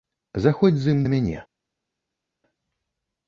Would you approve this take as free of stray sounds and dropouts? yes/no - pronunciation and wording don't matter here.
yes